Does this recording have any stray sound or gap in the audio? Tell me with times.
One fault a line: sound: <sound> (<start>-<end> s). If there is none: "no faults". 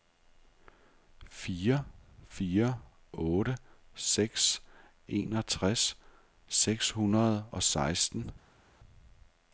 no faults